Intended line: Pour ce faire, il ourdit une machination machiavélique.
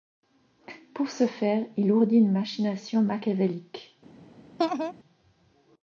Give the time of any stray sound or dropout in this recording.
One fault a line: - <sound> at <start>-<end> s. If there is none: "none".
- laugh at 4.6-4.9 s